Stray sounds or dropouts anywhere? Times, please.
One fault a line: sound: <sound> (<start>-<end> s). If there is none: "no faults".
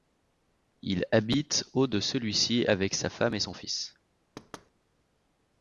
sound: thud (4.4-4.7 s)